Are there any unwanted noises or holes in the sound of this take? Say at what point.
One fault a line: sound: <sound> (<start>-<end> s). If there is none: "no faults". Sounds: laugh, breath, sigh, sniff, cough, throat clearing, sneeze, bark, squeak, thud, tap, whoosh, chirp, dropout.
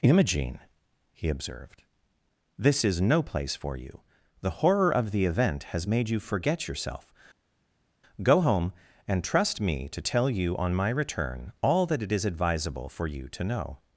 no faults